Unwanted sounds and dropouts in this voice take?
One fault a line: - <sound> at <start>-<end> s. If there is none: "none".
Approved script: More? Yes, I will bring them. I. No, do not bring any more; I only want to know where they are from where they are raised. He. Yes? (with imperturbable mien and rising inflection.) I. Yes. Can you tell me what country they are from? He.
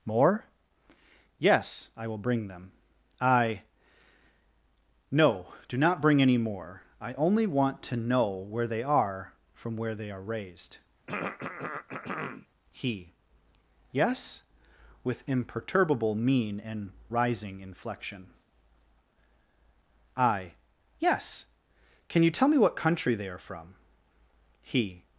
- throat clearing at 11.1-12.5 s